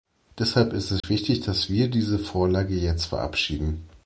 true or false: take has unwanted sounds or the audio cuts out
true